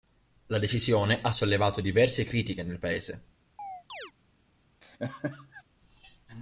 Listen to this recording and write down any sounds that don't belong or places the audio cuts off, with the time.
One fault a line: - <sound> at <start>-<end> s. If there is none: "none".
- chirp at 3.6-4.1 s
- laugh at 4.8-5.6 s